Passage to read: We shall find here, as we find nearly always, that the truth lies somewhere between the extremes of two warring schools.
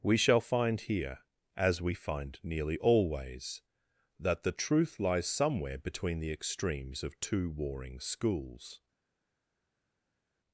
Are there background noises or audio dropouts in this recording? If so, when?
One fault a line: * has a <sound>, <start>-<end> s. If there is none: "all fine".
all fine